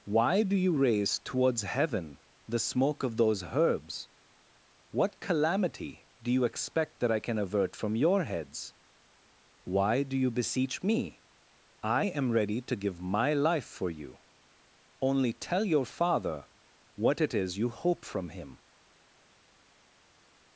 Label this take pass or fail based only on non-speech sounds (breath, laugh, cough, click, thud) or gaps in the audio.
pass